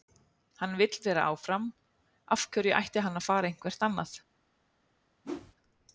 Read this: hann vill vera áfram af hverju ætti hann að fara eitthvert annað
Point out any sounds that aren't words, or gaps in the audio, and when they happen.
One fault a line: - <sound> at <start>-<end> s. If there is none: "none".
- whoosh at 5.2-5.5 s